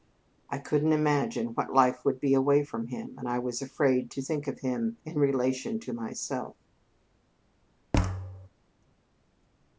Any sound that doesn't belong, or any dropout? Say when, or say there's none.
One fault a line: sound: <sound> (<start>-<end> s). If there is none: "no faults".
sound: thud (7.9-8.5 s)